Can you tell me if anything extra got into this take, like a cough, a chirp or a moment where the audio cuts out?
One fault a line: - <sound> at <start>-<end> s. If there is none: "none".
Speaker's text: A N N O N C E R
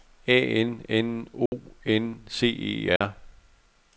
- dropout at 1.5-1.5 s
- dropout at 3.0-3.0 s